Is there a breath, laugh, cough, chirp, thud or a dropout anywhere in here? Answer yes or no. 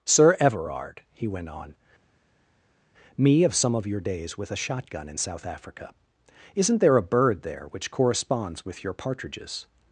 no